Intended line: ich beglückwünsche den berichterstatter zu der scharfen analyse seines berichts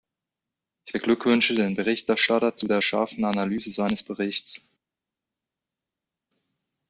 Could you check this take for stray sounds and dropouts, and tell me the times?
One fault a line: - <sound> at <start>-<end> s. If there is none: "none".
none